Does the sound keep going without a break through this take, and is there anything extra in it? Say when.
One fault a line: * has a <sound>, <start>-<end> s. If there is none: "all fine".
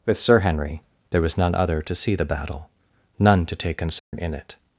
* has a dropout, 4.0-4.1 s